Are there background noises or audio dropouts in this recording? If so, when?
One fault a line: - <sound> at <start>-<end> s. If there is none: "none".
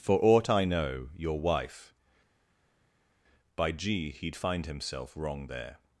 none